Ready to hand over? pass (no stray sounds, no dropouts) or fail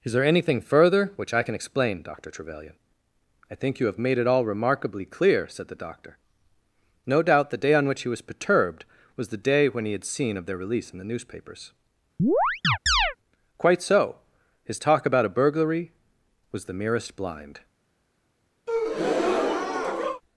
fail